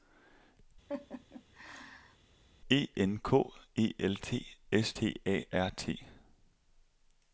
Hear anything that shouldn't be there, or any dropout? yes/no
yes